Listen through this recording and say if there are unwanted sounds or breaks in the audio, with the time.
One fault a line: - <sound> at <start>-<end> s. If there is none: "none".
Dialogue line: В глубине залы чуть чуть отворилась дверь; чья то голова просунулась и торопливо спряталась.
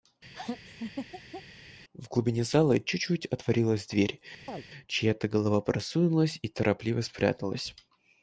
- laugh at 0.3-1.4 s
- chirp at 4.5-4.6 s